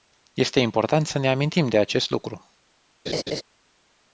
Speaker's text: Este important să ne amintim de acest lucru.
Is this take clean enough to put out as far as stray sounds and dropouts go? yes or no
no